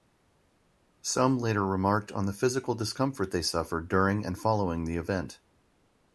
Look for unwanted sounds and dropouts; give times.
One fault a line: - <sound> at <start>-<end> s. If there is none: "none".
none